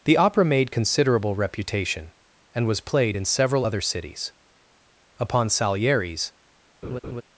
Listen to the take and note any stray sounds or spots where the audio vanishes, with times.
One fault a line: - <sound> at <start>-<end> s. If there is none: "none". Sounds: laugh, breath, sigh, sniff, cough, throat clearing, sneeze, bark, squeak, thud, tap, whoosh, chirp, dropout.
- laugh at 6.8-7.2 s